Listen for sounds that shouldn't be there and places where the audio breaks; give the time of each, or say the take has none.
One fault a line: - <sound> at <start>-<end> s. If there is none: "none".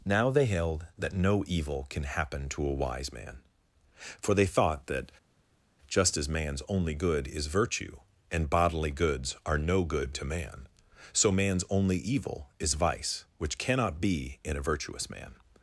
none